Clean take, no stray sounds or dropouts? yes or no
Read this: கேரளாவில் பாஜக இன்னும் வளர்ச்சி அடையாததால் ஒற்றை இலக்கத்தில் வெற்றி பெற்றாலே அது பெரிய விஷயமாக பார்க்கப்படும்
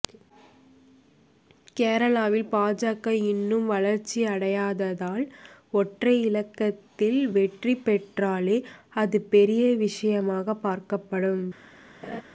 no